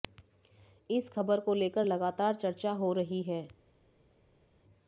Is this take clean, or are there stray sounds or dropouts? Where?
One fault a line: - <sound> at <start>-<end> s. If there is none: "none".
none